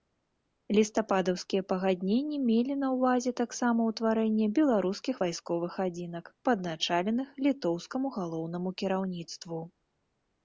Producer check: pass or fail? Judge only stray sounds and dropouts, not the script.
pass